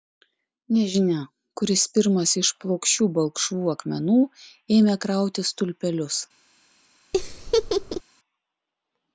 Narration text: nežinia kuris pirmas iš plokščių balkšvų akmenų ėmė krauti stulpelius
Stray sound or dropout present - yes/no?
yes